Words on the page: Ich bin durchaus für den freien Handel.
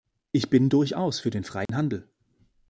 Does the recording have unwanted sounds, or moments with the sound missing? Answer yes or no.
yes